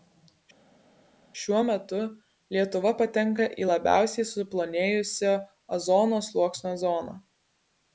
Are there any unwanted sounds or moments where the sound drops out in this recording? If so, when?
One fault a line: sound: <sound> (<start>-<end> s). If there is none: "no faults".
no faults